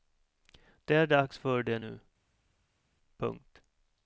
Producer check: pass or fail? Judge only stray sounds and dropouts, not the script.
pass